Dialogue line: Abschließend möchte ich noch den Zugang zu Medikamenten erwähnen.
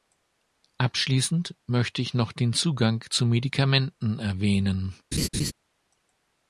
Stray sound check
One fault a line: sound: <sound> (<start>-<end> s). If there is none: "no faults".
sound: laugh (5.1-5.5 s)